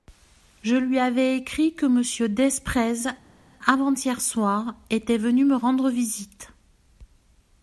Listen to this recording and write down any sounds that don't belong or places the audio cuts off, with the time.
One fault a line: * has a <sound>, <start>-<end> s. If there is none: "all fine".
all fine